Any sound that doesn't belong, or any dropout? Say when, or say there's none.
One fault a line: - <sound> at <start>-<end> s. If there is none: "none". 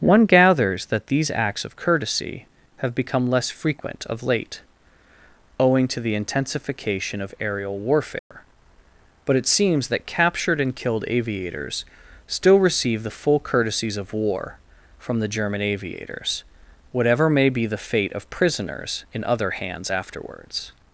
- dropout at 8.2-8.3 s